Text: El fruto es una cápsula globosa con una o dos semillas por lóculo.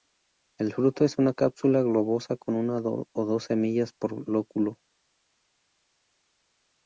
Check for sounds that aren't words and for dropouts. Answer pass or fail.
pass